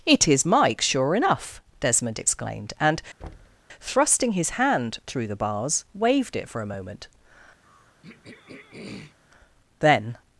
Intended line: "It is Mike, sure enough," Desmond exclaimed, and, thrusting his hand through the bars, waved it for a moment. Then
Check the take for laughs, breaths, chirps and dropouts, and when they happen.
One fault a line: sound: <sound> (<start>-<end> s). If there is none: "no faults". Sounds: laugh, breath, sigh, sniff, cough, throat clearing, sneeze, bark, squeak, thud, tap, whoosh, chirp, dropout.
sound: thud (3.2-3.6 s)
sound: throat clearing (7.6-9.2 s)